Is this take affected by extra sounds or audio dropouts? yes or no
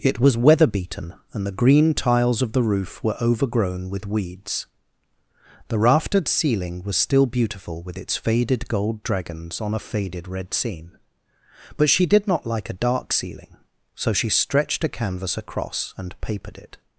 no